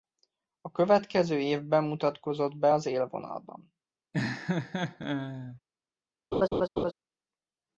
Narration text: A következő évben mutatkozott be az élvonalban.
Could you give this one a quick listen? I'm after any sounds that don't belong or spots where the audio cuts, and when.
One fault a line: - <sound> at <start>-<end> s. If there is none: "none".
- laugh at 4.1-5.6 s
- laugh at 6.3-6.9 s